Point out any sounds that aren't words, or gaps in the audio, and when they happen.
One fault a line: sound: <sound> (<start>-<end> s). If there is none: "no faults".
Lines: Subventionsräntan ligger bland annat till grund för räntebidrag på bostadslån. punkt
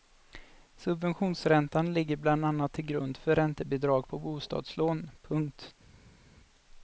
no faults